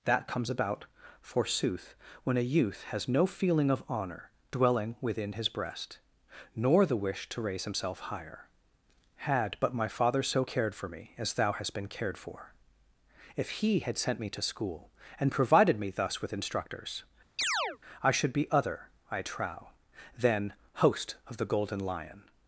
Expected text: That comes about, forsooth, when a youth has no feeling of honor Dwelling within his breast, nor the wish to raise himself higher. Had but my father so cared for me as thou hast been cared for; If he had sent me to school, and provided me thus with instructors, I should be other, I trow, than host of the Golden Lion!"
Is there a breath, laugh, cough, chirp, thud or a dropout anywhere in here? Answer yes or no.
yes